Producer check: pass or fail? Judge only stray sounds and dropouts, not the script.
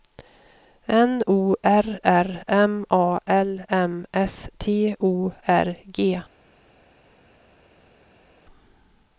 pass